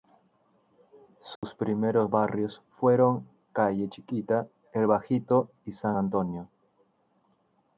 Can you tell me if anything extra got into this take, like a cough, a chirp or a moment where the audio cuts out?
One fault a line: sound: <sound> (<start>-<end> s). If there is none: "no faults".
sound: dropout (1.4-1.4 s)